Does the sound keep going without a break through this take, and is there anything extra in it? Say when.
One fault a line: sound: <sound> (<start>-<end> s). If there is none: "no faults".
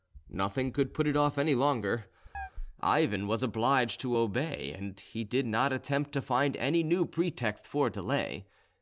sound: chirp (2.3-2.5 s)